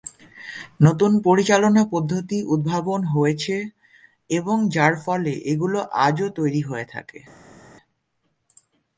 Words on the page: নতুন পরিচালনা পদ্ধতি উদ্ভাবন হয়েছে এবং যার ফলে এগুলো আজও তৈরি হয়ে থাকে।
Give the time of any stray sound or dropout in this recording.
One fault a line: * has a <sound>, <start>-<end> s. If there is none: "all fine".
all fine